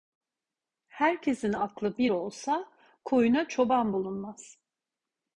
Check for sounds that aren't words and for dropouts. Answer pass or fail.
pass